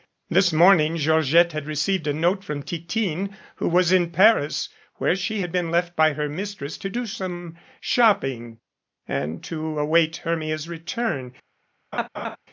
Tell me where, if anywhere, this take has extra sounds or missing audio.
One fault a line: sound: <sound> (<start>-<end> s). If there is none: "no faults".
sound: laugh (11.9-12.4 s)